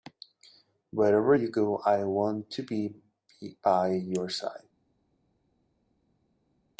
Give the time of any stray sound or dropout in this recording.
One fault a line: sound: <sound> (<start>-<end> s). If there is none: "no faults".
no faults